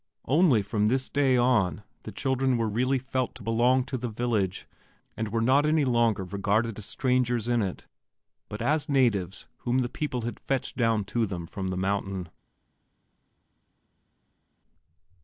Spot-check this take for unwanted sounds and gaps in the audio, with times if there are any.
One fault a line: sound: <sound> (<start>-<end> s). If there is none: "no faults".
no faults